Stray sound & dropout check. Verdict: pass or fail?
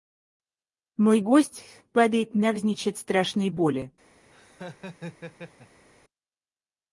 fail